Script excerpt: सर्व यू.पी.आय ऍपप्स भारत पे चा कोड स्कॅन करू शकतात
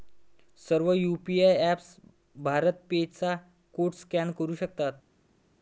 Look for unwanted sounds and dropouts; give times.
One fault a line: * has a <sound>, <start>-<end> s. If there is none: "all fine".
all fine